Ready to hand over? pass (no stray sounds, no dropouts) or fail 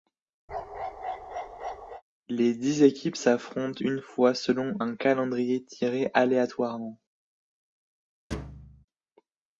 fail